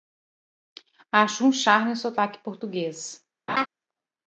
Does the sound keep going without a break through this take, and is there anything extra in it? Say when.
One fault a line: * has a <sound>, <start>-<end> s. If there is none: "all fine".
* has a laugh, 3.5-3.7 s